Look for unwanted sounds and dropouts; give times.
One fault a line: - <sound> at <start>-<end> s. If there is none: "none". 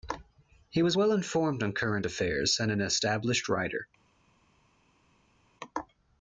none